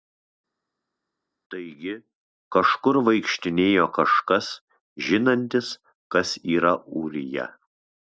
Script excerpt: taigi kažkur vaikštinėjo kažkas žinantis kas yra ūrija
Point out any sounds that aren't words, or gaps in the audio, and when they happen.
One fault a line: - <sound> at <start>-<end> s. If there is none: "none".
none